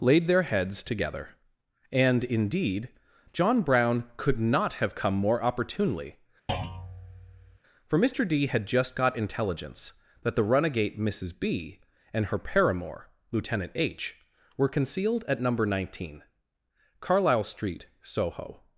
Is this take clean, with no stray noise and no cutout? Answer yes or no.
no